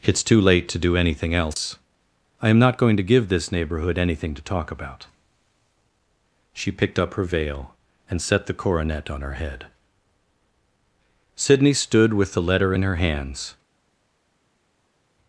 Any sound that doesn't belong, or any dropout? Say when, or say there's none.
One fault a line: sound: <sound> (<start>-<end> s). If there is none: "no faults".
no faults